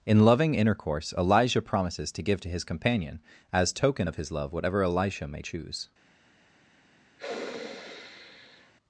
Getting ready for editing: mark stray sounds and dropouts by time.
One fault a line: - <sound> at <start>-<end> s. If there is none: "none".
- sniff at 7.2-8.7 s